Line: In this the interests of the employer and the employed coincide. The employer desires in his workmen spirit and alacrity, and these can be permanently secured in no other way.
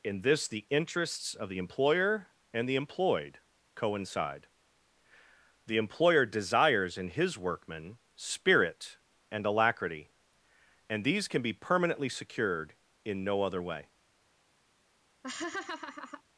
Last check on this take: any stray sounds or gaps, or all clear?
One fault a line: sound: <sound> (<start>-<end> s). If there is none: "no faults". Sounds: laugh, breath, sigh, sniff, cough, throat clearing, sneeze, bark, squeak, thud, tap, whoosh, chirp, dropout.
sound: laugh (15.2-16.2 s)